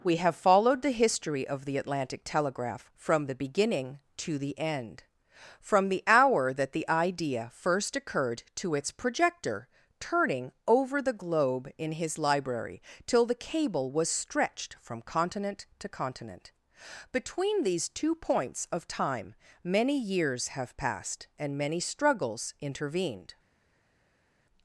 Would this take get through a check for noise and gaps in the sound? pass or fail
pass